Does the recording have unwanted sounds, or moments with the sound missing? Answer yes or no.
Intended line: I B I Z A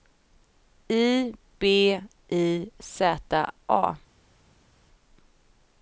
no